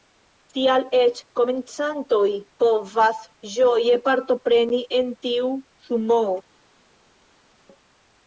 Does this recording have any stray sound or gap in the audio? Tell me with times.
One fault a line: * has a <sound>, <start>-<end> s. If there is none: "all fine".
all fine